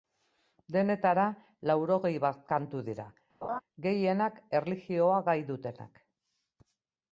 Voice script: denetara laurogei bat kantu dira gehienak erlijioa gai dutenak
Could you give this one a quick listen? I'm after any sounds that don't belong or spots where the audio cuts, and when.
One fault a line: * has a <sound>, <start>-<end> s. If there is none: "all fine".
* has a laugh, 3.4-3.6 s